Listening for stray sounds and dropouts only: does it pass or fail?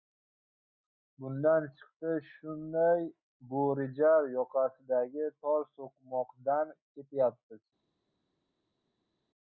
pass